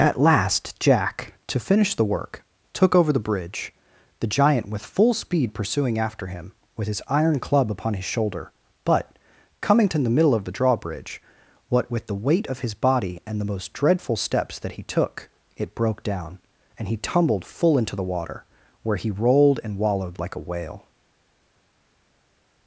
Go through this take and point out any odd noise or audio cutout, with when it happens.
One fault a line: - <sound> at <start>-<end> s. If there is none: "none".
none